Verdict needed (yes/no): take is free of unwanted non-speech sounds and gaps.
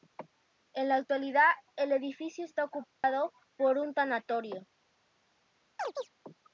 no